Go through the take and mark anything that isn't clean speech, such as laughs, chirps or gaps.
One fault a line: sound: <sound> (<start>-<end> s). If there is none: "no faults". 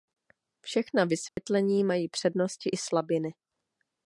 sound: dropout (1.3-1.4 s)